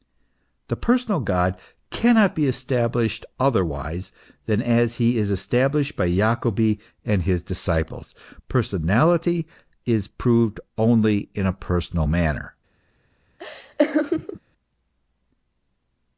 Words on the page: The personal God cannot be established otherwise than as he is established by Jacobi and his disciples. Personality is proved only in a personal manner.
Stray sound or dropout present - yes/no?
yes